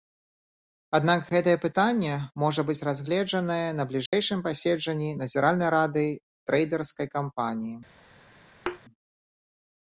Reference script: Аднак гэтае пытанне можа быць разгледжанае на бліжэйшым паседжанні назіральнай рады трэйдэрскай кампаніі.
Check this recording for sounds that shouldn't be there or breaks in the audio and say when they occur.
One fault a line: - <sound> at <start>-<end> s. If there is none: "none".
- dropout at 4.1-4.1 s
- thud at 8.7-8.8 s